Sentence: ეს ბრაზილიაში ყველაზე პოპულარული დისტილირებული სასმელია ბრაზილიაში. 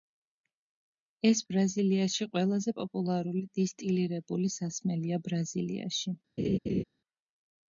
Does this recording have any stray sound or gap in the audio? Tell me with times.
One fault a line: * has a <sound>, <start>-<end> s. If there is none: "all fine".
* has a laugh, 6.4-6.8 s